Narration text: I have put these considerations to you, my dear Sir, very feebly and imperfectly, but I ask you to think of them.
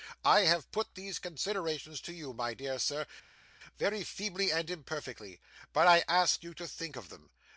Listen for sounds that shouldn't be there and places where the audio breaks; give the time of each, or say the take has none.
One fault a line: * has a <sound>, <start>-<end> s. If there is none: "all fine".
all fine